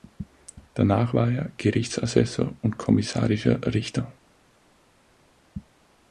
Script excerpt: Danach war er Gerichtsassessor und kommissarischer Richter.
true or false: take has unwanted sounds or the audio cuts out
false